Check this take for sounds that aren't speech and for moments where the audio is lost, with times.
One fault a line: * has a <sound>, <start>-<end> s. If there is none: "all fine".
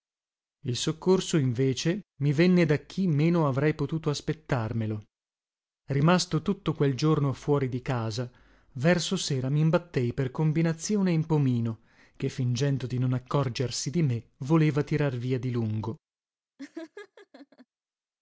* has a laugh, 16.6-17.7 s